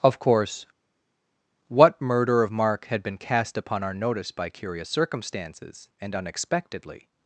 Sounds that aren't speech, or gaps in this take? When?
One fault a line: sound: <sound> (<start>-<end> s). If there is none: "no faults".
no faults